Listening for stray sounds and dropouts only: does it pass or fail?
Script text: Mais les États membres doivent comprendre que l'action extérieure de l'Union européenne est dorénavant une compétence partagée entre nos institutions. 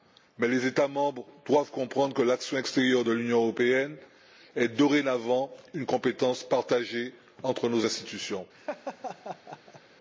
fail